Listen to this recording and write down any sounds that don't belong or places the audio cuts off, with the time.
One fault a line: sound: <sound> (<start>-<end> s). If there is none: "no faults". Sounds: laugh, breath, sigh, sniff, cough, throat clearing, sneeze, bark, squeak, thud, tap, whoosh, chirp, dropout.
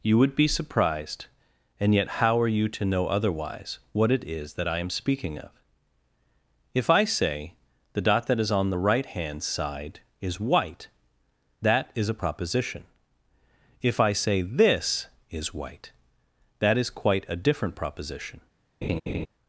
sound: laugh (18.8-19.3 s)